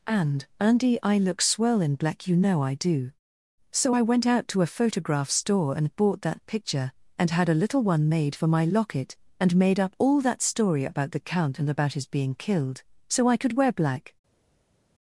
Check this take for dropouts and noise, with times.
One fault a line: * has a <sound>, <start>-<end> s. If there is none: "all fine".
all fine